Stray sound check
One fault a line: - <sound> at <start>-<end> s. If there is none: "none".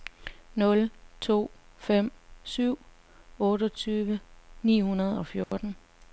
- dropout at 5.4-5.5 s